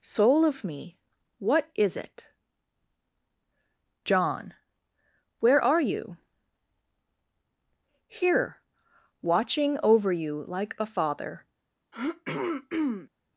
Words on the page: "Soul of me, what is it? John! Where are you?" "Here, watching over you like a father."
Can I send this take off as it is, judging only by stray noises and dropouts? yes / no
no